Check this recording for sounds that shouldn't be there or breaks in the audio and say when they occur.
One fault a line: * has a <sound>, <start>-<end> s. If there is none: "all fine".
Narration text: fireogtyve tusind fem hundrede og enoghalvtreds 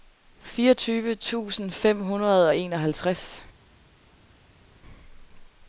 all fine